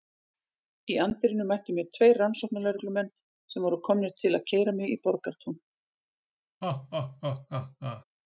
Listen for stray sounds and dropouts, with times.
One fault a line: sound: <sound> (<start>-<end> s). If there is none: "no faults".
sound: laugh (6.6-8.0 s)